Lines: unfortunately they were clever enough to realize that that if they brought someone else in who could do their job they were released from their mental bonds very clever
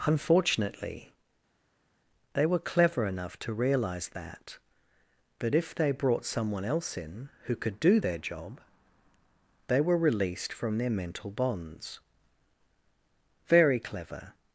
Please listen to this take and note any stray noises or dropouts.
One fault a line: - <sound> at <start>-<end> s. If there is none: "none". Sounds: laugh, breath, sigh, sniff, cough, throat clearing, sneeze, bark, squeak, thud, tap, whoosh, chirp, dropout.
none